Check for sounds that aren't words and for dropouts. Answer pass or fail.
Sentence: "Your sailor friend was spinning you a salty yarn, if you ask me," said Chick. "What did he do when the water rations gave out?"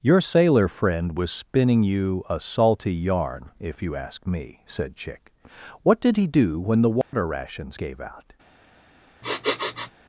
fail